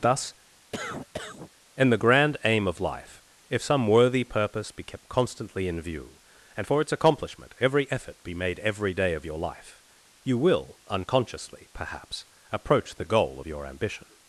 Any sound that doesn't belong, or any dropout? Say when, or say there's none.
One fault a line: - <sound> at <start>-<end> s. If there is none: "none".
- cough at 0.7-1.5 s